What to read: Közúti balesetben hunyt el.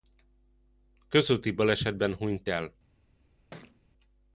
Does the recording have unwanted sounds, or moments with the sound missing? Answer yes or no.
yes